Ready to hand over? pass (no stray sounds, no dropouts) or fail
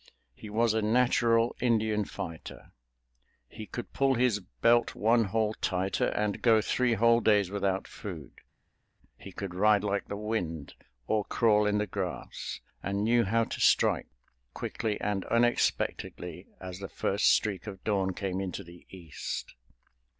pass